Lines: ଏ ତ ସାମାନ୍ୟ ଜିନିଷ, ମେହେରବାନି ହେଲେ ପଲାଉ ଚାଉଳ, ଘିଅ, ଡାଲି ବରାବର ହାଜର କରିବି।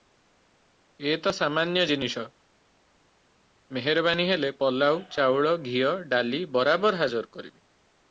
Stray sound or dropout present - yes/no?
no